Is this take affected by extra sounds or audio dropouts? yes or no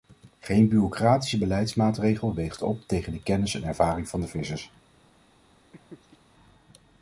yes